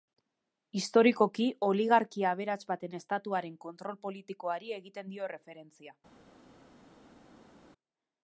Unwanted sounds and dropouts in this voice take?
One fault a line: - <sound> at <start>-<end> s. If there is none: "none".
none